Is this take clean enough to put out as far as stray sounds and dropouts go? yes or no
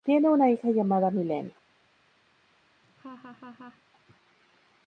no